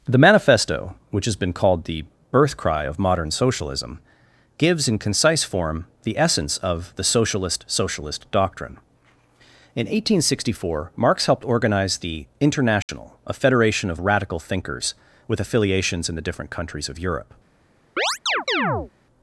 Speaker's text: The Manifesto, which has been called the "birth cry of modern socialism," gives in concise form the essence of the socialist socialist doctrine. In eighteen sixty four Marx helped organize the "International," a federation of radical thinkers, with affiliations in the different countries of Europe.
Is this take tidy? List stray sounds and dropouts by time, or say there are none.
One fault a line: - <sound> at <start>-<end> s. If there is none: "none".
- dropout at 12.8-12.9 s
- chirp at 18.0-18.9 s